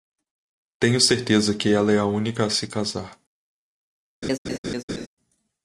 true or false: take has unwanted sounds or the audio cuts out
true